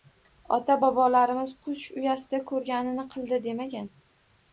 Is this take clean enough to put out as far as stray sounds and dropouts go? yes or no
yes